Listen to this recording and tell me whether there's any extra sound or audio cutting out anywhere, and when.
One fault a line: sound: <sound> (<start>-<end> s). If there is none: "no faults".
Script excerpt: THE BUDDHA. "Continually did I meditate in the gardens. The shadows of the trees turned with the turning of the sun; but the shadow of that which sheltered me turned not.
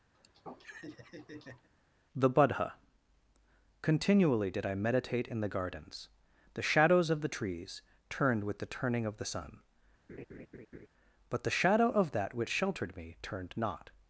sound: laugh (0.1-1.7 s)
sound: laugh (10.1-10.9 s)